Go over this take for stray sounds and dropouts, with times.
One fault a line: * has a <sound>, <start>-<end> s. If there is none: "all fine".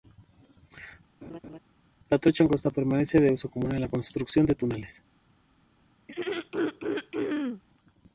* has a laugh, 1.2-1.6 s
* has a throat clearing, 6.1-7.6 s